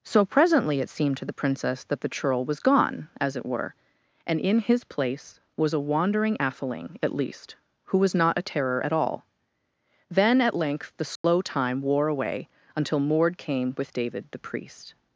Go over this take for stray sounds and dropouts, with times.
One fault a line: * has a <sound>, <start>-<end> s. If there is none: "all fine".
* has a dropout, 11.2-11.2 s